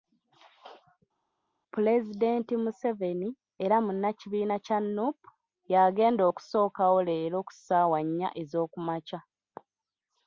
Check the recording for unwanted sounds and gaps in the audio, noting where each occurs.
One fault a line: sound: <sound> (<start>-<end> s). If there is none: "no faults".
no faults